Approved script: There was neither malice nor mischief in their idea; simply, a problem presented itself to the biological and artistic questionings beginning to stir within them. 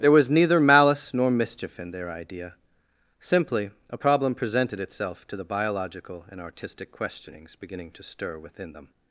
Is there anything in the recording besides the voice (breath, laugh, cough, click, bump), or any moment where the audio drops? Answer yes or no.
no